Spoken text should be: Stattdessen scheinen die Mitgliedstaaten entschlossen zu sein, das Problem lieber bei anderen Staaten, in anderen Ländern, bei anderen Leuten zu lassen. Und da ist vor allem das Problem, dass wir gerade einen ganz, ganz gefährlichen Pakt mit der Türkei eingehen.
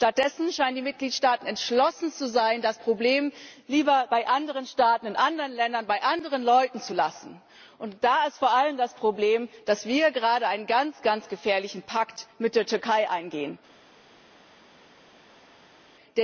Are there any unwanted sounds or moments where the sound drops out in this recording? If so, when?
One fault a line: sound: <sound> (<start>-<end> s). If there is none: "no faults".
no faults